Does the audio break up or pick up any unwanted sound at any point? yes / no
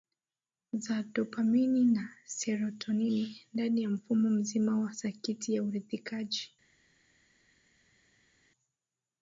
no